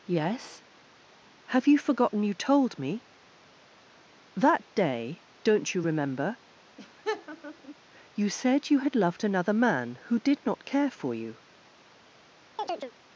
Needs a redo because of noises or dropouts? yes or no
yes